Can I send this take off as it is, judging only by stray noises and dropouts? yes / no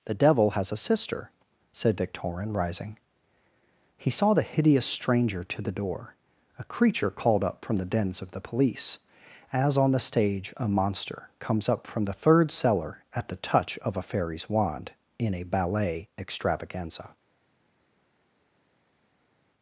yes